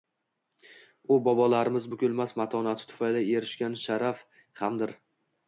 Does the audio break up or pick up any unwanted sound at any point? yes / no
no